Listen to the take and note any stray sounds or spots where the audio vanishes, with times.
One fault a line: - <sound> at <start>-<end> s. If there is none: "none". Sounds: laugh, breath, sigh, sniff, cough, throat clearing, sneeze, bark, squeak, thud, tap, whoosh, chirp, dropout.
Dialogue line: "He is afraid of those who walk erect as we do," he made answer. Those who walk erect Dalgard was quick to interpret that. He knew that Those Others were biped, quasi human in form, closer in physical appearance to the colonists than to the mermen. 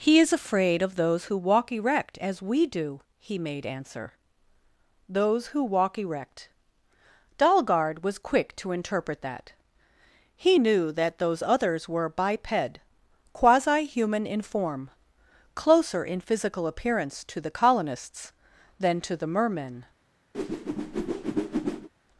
- whoosh at 20.3-21.9 s